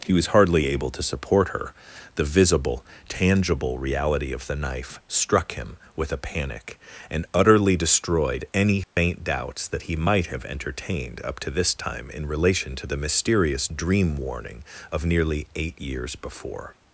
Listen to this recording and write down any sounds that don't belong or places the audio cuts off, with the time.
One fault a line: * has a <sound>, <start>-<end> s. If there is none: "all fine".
* has a dropout, 8.8-9.0 s